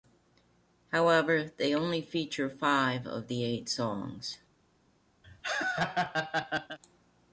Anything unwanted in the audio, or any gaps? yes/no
yes